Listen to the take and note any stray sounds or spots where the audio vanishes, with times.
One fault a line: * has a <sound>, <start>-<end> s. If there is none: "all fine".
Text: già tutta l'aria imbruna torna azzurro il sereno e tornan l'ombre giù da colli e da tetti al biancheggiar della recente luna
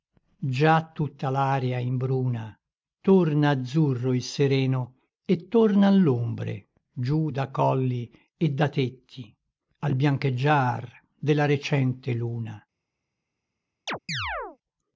* has a chirp, 13.9-14.6 s